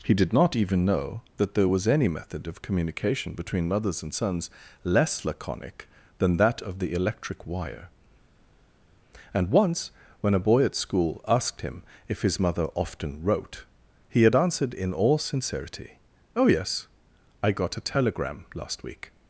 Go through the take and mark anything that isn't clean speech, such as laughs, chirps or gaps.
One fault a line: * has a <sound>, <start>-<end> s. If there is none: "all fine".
all fine